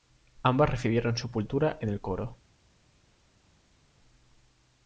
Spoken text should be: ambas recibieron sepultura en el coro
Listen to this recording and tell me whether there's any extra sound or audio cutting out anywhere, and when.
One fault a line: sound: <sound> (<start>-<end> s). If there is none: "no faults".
no faults